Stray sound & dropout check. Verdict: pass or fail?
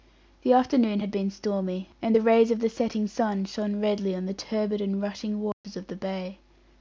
fail